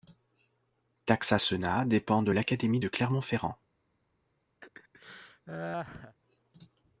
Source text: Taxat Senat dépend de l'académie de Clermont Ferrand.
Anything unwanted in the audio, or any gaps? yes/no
yes